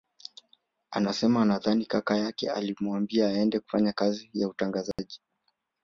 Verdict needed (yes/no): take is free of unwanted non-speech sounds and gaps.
no